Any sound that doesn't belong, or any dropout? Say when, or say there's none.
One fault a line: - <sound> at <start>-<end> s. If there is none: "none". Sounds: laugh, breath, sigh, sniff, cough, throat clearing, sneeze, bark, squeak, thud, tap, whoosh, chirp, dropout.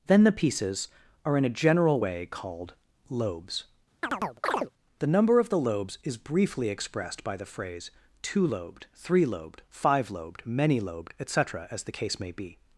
- chirp at 4.0-4.7 s